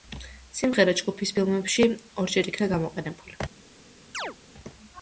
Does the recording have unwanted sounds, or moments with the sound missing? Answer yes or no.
yes